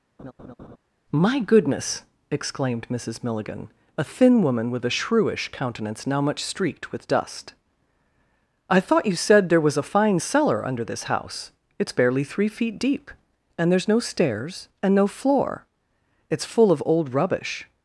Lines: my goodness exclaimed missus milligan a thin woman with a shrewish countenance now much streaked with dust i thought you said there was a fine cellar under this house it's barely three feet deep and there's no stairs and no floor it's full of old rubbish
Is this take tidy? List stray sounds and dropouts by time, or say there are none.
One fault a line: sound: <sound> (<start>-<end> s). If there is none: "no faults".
sound: laugh (0.2-0.8 s)